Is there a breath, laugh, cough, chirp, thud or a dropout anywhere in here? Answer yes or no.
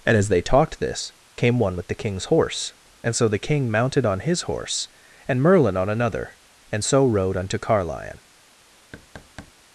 yes